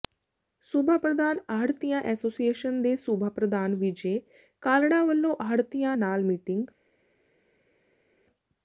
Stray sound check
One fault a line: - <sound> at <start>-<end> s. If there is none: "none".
none